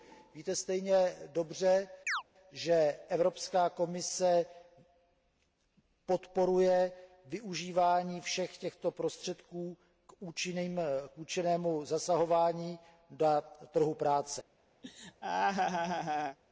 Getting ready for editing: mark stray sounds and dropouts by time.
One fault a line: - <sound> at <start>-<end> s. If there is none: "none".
- chirp at 2.1-2.2 s
- laugh at 14.8-16.4 s